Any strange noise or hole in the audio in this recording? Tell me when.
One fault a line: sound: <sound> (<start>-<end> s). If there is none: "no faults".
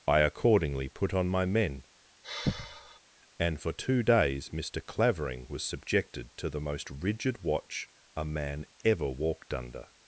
sound: sigh (2.2-3.0 s)